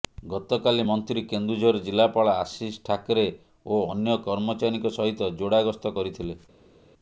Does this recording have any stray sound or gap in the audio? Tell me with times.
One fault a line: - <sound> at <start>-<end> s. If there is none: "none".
none